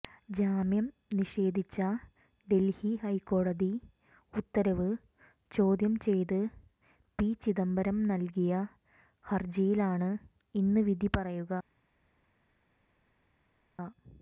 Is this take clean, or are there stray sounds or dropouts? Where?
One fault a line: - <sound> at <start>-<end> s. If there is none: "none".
none